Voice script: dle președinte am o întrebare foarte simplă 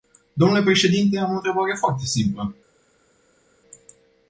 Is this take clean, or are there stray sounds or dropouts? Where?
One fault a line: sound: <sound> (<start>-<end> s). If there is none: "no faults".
no faults